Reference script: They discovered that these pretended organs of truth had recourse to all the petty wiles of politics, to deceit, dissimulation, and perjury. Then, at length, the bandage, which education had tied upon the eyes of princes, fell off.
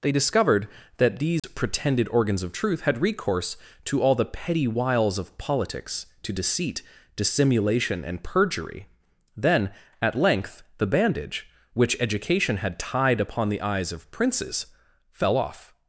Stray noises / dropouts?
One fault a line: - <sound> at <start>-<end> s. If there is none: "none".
- dropout at 1.4-1.4 s